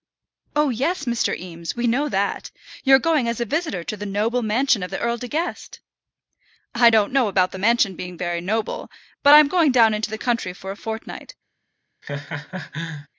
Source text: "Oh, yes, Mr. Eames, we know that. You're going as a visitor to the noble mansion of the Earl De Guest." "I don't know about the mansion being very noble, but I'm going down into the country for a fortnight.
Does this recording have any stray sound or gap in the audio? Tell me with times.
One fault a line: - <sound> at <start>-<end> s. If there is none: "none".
- laugh at 12.0-13.1 s